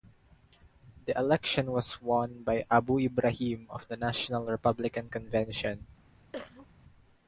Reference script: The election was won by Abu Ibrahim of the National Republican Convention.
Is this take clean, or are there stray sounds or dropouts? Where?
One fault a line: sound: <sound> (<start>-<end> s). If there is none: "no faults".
sound: cough (6.3-6.7 s)